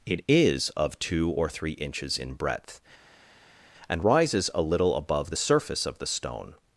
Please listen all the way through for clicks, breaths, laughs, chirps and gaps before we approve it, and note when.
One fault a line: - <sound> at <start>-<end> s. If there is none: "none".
none